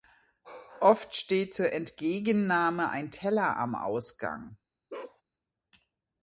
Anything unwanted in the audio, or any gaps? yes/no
yes